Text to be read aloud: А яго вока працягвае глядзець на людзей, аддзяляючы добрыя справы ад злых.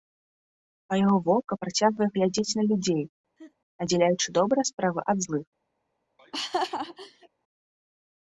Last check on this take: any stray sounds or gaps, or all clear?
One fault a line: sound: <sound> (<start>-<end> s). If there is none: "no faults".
sound: laugh (3.4-3.5 s)
sound: laugh (6.2-7.3 s)